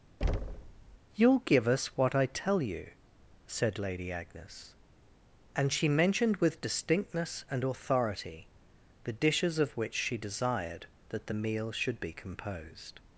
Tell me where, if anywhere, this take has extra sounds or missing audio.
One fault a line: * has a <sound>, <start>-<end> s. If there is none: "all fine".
* has a thud, 0.2-1.0 s